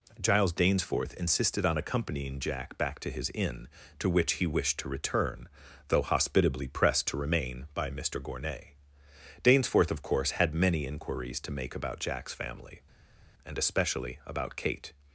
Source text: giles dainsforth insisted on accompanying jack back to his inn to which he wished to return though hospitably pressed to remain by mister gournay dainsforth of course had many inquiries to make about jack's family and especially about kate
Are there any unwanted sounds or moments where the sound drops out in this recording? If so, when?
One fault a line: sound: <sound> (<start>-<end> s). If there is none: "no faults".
no faults